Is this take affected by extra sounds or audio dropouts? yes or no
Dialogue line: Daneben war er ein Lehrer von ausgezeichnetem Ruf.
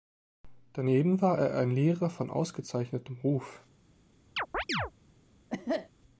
yes